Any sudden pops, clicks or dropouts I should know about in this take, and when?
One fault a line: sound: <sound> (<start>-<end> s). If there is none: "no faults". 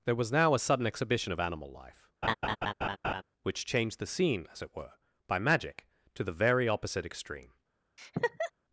sound: laugh (2.2-3.2 s)
sound: laugh (8.0-8.5 s)